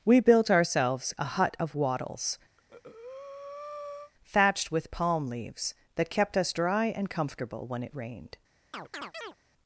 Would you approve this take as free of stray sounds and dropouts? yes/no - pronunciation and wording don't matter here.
no